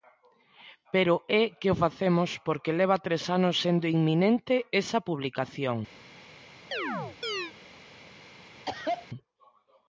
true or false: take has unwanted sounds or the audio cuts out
true